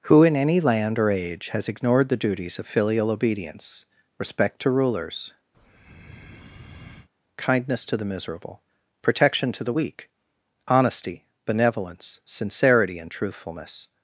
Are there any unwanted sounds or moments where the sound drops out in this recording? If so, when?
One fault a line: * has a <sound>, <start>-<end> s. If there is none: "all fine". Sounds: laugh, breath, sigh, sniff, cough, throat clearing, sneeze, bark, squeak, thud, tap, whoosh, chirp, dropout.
* has a breath, 5.5-7.1 s